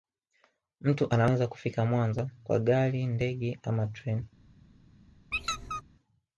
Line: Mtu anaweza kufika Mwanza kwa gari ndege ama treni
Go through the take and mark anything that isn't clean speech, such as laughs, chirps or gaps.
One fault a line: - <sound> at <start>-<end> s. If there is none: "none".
- squeak at 5.3-5.8 s